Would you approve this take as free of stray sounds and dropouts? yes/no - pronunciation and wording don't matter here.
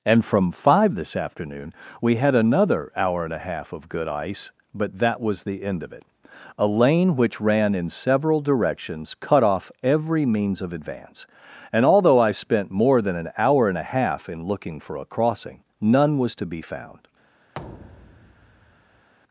no